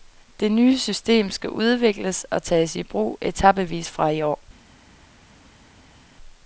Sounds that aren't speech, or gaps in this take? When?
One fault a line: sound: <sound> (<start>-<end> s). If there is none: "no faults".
no faults